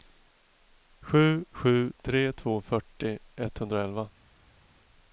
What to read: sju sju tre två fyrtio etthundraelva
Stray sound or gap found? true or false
false